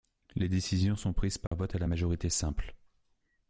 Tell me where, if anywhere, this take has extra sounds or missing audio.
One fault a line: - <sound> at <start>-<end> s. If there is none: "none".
- dropout at 1.5-1.5 s